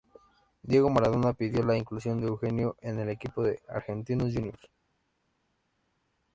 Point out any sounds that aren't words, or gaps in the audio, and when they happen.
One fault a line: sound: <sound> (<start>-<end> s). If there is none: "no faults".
no faults